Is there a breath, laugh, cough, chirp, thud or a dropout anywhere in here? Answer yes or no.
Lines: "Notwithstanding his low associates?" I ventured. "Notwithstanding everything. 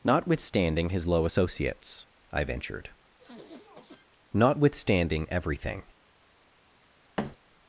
yes